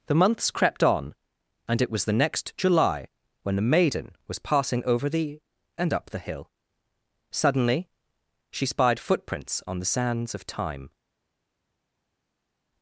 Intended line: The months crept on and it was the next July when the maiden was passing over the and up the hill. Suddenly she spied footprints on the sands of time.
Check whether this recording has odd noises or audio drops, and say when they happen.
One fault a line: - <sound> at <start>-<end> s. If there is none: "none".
none